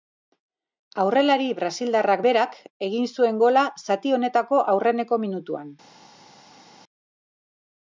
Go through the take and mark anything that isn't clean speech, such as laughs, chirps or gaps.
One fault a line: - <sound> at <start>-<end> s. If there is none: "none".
none